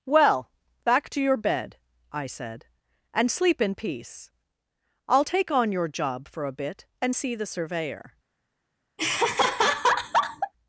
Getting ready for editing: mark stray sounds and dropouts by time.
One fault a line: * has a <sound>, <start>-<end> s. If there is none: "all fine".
* has a laugh, 9.0-10.5 s